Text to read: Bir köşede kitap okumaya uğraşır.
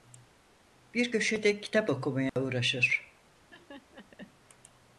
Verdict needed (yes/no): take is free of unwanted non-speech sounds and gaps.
no